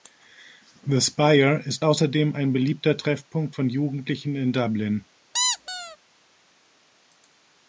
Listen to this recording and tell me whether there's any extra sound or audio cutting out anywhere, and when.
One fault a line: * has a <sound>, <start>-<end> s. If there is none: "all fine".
* has a squeak, 5.3-6.0 s